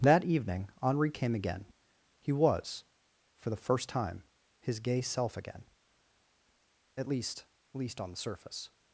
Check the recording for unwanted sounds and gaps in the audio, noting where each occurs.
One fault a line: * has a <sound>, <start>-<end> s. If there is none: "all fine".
all fine